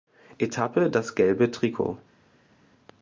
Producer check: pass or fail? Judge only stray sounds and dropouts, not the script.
pass